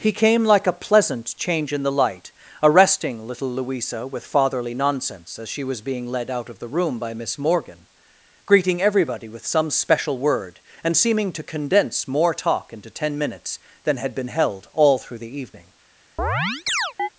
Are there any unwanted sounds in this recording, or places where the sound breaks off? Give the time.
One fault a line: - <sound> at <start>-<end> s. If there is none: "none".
- chirp at 16.2-17.1 s